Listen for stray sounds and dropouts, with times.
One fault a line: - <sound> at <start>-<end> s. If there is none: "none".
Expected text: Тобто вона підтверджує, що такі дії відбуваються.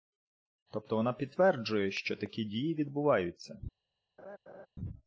- laugh at 4.2-4.7 s